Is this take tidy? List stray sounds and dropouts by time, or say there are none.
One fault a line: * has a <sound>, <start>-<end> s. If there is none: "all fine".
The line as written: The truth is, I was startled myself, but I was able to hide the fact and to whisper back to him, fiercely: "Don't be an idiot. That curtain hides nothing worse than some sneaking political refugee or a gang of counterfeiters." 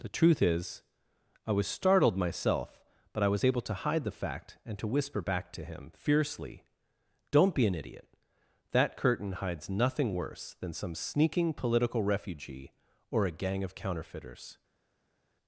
all fine